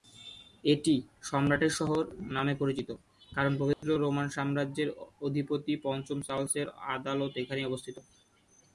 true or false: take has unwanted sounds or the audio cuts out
true